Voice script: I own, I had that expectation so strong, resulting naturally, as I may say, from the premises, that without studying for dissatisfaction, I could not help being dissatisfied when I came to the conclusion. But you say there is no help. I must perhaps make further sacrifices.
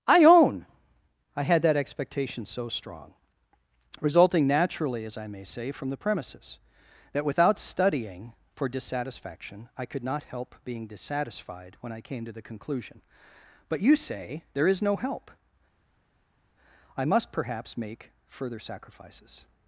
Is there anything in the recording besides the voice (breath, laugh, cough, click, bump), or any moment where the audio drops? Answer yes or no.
no